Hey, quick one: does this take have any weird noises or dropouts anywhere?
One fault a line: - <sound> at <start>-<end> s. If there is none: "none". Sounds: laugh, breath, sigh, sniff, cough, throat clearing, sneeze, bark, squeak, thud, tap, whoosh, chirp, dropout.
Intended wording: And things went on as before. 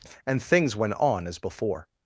none